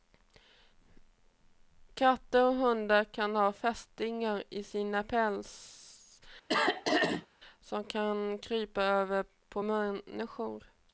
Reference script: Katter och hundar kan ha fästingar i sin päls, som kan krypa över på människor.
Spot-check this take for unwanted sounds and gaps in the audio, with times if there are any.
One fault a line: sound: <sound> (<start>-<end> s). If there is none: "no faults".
sound: throat clearing (6.5-7.3 s)